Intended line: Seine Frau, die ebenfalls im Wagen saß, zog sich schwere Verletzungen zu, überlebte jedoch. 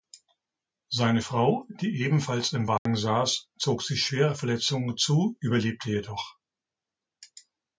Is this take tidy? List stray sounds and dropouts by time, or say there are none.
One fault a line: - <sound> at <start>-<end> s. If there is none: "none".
- dropout at 2.8-2.9 s